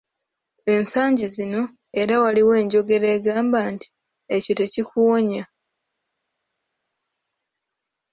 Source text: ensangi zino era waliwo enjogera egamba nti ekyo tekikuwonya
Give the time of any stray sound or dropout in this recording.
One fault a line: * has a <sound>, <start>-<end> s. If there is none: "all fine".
all fine